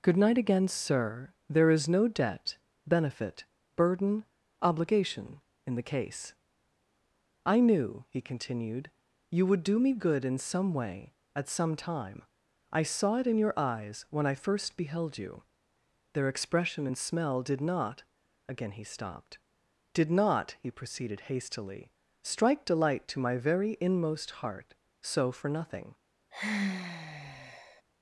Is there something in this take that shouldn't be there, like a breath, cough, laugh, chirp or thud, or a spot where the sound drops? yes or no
yes